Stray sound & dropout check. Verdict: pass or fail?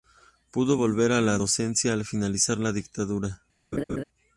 fail